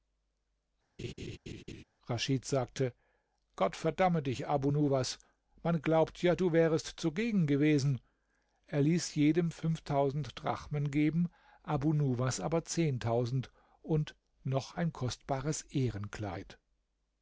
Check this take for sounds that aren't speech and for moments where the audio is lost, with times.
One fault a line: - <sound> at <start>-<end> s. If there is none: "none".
- laugh at 1.0-1.8 s